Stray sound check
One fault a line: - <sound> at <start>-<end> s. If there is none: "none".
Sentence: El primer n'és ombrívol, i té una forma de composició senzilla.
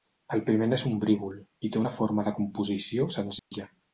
- dropout at 3.4-3.5 s